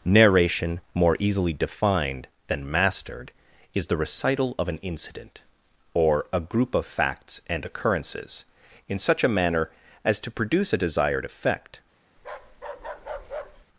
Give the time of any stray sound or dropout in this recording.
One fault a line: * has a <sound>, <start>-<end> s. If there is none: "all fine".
* has a bark, 12.2-13.7 s